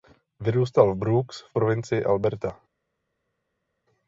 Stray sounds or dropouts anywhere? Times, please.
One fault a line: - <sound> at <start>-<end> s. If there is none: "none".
none